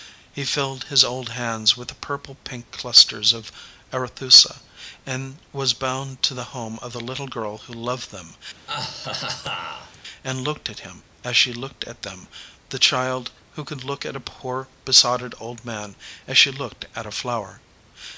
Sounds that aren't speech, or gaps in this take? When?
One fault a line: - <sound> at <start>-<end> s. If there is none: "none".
- laugh at 8.7-10.0 s